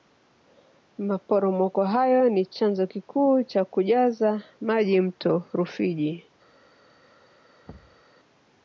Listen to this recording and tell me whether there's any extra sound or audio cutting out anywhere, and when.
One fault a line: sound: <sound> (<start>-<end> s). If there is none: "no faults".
sound: thud (7.7-8.0 s)